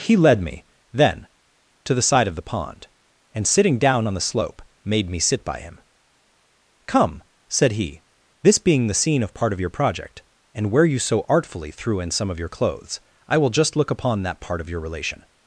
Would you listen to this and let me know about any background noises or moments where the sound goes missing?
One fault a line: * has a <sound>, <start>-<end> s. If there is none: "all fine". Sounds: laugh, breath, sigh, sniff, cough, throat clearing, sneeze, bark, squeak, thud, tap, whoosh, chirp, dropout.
all fine